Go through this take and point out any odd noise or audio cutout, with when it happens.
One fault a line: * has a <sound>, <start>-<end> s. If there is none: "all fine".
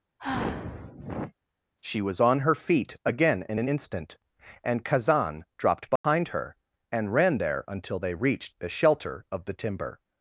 * has a sigh, 0.2-1.3 s
* has a dropout, 6.0-6.0 s